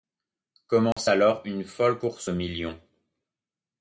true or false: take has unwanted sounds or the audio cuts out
true